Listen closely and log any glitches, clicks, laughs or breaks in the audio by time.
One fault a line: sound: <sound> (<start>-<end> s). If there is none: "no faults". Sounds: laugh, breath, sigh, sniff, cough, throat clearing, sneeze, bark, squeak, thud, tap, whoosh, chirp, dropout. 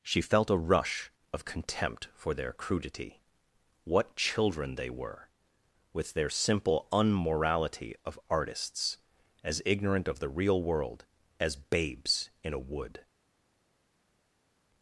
no faults